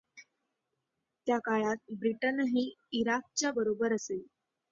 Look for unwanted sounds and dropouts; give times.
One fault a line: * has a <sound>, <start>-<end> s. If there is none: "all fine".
all fine